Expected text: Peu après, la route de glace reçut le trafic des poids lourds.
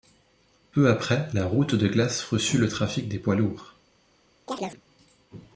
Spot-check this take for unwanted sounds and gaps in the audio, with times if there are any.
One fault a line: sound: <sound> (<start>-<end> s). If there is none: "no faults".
sound: chirp (4.5-4.8 s)